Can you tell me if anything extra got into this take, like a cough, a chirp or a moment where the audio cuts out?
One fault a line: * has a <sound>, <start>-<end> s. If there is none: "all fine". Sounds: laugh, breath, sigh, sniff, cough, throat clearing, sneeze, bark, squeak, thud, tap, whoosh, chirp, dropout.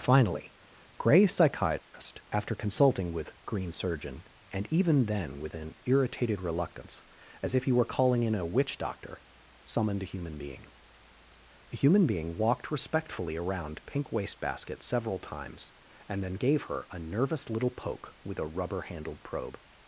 * has a dropout, 1.8-1.9 s